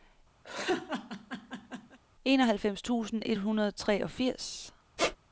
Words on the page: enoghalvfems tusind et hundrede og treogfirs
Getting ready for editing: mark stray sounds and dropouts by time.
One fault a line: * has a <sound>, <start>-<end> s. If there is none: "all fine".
* has a laugh, 0.4-2.0 s
* has a squeak, 5.0-5.2 s